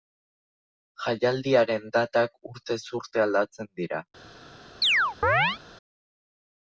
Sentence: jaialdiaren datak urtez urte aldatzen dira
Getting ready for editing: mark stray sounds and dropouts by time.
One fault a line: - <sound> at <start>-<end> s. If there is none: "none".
- chirp at 4.8-5.6 s